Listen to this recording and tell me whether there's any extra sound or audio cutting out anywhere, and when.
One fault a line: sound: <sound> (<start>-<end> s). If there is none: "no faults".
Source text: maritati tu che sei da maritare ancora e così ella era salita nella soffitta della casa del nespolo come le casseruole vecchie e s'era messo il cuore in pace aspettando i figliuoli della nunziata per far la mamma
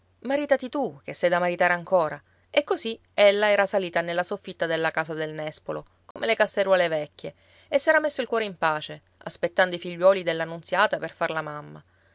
sound: dropout (6.1-6.2 s)